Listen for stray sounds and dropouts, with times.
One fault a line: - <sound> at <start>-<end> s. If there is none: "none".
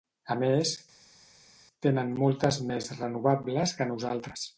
none